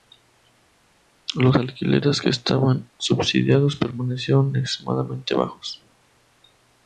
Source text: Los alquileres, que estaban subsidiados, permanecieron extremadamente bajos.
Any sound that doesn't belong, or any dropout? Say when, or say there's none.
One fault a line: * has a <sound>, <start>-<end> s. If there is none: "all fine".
all fine